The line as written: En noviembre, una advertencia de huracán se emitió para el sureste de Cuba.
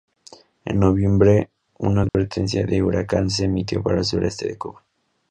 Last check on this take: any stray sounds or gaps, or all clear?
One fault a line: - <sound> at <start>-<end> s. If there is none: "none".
- dropout at 2.1-2.1 s